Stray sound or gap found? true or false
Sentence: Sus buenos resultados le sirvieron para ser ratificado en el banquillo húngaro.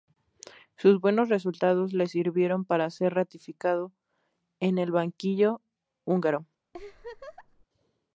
true